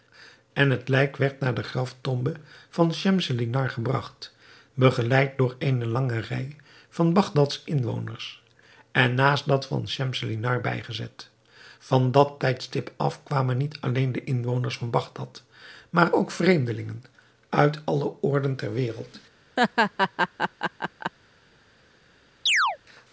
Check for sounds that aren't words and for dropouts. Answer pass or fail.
fail